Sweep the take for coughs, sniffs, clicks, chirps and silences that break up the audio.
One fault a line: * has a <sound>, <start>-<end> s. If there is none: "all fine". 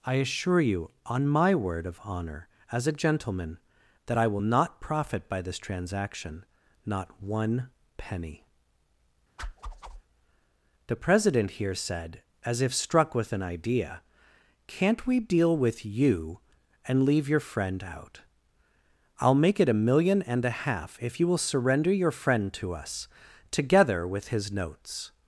* has a whoosh, 9.4-10.0 s